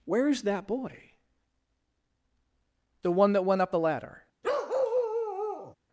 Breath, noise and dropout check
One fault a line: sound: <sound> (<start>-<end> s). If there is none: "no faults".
sound: bark (4.4-5.7 s)